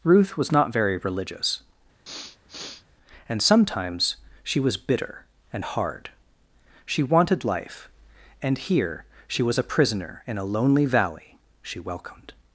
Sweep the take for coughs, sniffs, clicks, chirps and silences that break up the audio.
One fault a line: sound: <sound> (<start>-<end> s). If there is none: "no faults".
sound: sniff (2.1-2.9 s)